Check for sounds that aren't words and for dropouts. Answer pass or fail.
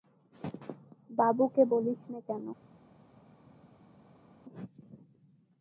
pass